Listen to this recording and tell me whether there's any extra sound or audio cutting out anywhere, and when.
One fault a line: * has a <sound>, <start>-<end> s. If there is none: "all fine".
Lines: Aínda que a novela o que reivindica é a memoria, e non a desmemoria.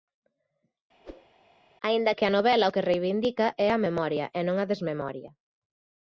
* has a whoosh, 1.0-1.3 s